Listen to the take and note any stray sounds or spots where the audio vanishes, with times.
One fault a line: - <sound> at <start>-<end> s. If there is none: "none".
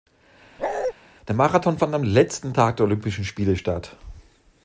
- bark at 0.6-0.9 s